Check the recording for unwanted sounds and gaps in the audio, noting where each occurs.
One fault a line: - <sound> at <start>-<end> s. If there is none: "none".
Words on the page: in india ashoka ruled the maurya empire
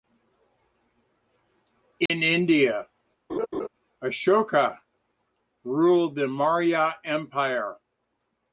- dropout at 2.1-2.1 s
- laugh at 3.3-3.7 s